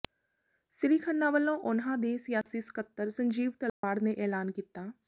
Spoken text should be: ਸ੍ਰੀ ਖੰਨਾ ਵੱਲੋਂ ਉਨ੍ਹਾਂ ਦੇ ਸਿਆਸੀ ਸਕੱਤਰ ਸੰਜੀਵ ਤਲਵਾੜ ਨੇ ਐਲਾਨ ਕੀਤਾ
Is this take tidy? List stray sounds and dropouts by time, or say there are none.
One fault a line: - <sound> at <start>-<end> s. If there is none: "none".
- dropout at 2.4-2.5 s
- dropout at 3.7-3.8 s